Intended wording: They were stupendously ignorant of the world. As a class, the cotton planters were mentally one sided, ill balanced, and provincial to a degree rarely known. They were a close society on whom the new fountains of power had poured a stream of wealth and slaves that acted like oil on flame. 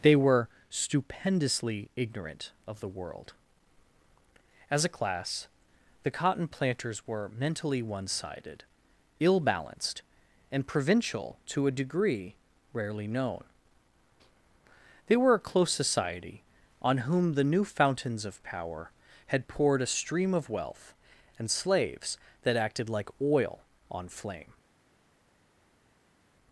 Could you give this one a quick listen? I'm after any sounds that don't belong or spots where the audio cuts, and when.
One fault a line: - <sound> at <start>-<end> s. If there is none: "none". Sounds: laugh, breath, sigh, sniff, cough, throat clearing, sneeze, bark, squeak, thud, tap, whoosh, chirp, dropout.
none